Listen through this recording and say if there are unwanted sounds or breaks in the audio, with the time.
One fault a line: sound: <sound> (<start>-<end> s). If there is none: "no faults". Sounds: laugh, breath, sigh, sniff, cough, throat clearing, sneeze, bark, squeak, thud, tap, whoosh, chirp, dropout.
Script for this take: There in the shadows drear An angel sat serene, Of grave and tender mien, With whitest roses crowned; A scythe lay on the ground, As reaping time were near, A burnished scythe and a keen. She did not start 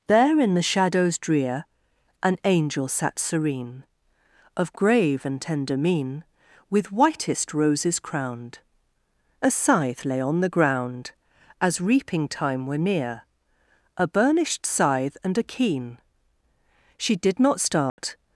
sound: dropout (17.9-18.0 s)